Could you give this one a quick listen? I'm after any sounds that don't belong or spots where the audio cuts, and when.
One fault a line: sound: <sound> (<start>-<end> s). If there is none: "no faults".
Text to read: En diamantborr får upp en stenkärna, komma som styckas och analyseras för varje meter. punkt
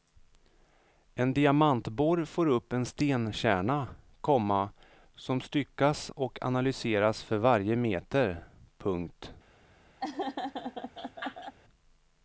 sound: laugh (10.0-11.5 s)